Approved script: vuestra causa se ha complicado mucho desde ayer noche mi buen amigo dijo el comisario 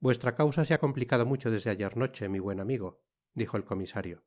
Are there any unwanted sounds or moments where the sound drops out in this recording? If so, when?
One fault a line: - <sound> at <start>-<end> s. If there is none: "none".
none